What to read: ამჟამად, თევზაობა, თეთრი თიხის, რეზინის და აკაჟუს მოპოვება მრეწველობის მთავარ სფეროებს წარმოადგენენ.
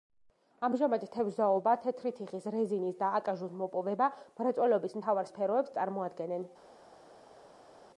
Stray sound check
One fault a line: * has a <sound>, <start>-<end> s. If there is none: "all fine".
all fine